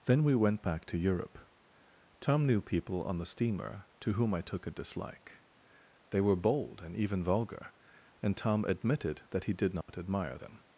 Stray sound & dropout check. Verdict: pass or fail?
fail